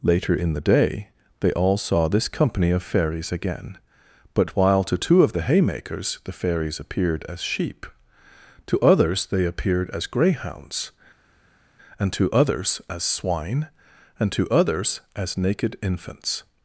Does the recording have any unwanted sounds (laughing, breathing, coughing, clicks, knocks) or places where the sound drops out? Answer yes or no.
no